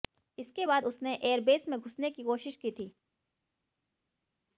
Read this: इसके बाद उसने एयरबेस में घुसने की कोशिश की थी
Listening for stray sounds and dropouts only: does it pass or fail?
pass